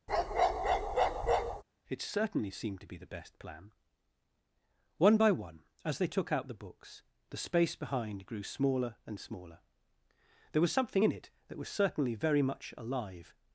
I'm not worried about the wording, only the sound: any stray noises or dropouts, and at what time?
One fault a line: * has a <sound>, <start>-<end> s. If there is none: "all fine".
* has a bark, 0.1-1.6 s